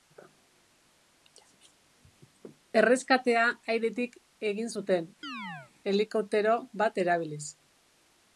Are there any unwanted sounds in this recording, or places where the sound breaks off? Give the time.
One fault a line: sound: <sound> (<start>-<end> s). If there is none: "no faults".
sound: chirp (5.2-5.7 s)